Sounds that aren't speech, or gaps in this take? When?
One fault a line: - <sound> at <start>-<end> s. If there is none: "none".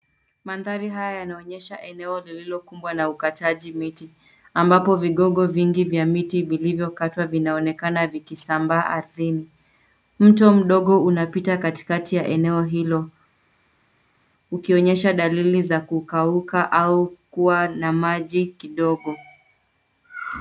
none